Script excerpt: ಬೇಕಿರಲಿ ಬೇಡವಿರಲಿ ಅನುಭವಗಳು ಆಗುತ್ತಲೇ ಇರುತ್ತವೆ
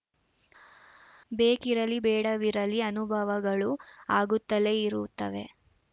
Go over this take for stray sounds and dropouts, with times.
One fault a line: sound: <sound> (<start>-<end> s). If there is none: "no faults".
no faults